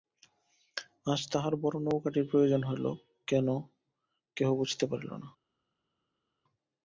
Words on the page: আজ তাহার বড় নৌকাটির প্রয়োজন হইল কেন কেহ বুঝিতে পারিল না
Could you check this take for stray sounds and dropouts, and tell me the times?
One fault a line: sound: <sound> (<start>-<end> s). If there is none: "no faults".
no faults